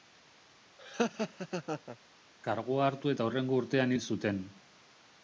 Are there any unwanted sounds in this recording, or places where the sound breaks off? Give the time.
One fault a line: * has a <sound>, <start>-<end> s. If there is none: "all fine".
* has a laugh, 0.8-2.0 s